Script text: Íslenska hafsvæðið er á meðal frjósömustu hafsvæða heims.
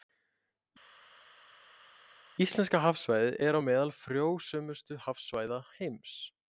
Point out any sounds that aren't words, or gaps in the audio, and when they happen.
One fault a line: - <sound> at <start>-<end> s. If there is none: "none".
none